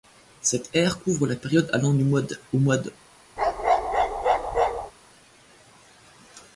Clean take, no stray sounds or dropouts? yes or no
no